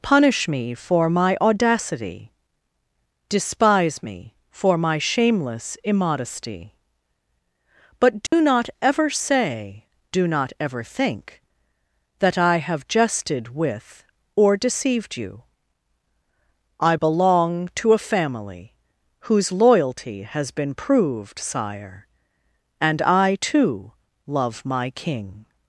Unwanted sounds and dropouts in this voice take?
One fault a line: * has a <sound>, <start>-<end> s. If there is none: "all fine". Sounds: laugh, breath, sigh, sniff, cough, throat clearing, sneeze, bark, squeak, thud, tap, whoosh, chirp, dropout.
* has a dropout, 8.3-8.3 s